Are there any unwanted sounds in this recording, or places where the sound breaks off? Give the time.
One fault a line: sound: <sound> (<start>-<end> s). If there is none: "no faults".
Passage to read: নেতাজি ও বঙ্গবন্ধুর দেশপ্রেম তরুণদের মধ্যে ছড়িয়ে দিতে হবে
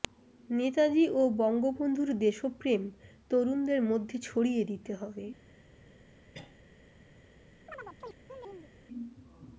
sound: cough (6.3-6.6 s)
sound: chirp (7.7-8.7 s)